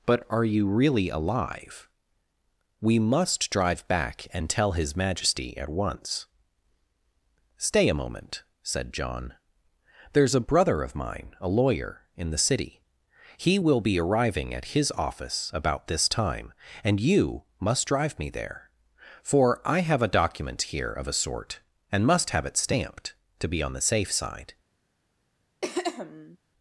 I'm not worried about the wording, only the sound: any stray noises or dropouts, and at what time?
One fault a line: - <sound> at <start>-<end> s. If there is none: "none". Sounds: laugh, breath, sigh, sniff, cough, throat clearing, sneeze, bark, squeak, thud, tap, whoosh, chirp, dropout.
- throat clearing at 25.6-26.4 s